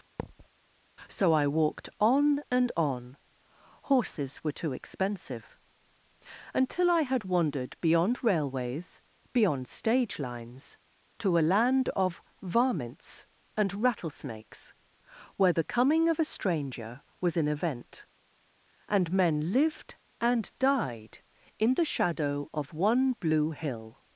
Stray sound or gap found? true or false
true